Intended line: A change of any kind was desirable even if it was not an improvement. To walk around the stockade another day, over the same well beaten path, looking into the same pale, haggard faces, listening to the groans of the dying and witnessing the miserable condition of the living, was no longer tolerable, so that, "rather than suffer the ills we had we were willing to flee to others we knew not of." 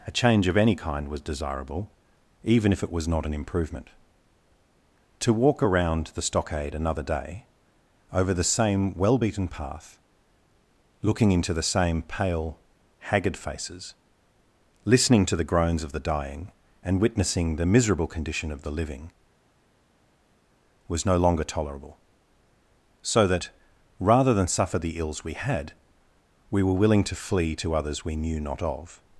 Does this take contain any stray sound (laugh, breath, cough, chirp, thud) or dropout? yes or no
no